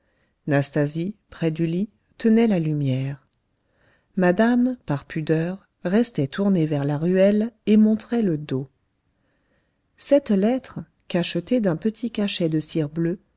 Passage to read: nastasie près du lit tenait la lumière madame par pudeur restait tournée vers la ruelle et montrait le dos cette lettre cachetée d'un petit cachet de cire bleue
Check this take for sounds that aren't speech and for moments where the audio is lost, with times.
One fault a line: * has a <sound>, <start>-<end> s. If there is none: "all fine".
all fine